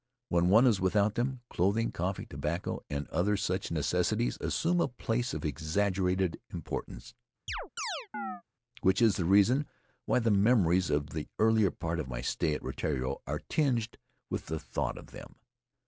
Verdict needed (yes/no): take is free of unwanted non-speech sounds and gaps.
no